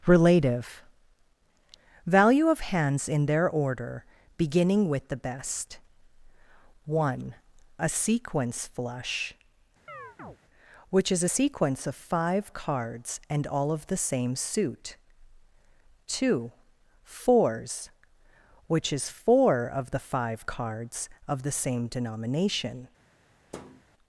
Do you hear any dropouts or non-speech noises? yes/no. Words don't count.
yes